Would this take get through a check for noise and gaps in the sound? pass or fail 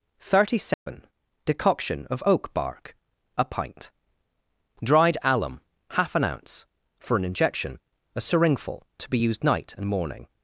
fail